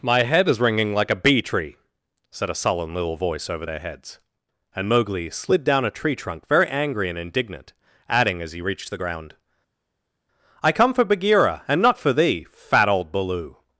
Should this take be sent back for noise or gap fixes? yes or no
no